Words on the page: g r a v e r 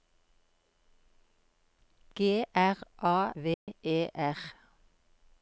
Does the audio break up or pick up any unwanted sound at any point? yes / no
yes